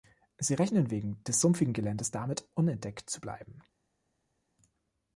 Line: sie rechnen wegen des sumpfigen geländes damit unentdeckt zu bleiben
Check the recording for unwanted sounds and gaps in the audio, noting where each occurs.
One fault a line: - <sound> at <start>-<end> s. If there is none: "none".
none